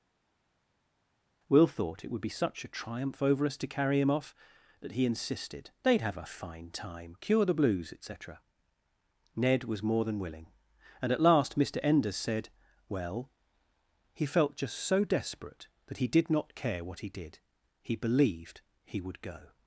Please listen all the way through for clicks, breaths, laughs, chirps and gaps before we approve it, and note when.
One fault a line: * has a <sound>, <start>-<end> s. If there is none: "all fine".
all fine